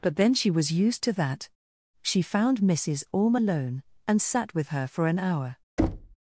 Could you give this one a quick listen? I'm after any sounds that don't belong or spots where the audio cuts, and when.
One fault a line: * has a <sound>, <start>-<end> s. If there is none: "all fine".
* has a thud, 5.8-6.2 s